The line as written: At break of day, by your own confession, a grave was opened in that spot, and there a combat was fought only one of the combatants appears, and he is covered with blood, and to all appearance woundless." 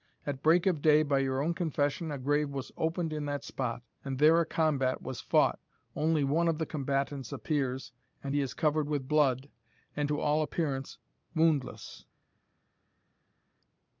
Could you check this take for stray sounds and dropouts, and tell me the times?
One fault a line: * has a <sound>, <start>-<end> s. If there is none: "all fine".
all fine